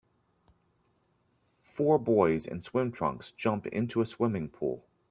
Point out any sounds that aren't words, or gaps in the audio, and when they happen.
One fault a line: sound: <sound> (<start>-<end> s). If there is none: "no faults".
no faults